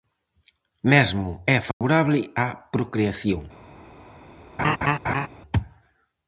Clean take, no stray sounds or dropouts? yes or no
no